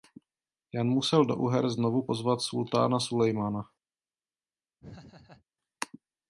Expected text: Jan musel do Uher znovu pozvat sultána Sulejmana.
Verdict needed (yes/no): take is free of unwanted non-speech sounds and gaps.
no